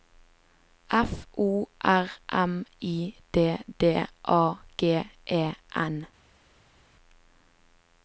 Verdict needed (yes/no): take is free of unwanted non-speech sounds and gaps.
yes